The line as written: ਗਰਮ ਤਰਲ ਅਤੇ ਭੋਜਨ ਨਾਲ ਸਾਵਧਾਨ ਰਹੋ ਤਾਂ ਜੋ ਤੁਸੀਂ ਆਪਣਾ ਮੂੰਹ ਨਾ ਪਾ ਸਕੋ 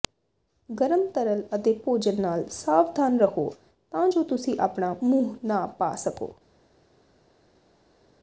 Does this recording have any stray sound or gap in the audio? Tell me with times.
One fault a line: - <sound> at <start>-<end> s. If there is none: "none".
none